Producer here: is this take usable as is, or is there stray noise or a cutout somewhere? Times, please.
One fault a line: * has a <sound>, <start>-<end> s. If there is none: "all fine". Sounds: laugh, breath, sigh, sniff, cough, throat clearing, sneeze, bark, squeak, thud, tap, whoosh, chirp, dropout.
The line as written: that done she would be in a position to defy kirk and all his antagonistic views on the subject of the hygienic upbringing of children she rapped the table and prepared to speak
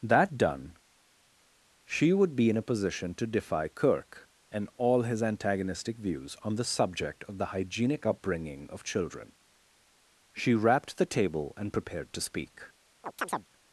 * has a chirp, 13.0-13.5 s